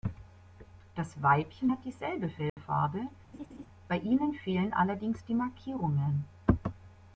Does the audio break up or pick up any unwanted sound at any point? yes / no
yes